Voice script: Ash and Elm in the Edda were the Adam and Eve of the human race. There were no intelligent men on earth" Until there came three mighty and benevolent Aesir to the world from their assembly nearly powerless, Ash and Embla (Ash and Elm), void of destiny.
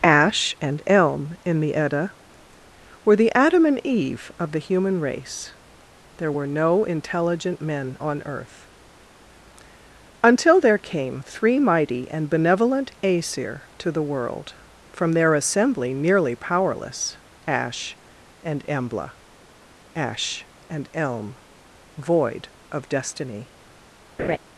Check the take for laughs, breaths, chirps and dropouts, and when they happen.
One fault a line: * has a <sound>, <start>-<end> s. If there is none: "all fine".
* has a laugh, 24.2-24.4 s